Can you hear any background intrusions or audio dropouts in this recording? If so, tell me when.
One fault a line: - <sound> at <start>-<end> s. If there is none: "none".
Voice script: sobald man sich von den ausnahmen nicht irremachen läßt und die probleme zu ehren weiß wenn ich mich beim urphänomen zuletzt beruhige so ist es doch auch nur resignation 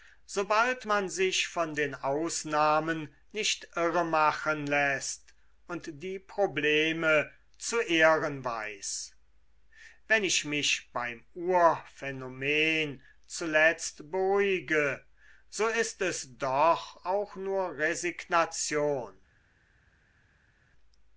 none